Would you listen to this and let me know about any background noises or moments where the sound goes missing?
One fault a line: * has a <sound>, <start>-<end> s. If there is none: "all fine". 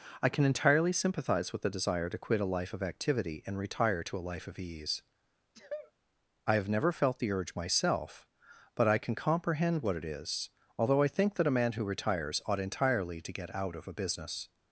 * has a sneeze, 5.5-5.9 s